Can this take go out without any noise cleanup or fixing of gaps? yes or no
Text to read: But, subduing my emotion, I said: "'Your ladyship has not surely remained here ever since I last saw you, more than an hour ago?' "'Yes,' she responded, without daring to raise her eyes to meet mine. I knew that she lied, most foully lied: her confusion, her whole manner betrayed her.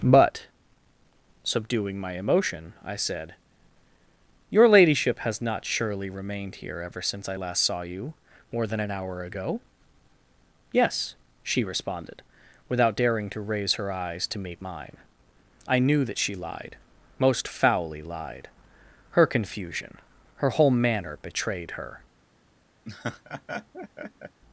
no